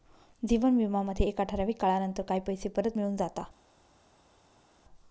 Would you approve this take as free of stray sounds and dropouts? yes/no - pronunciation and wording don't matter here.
yes